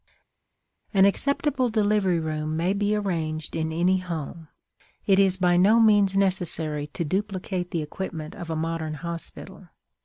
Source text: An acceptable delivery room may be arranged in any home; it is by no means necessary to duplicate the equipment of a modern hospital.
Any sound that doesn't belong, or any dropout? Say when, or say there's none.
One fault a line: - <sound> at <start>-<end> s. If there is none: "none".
none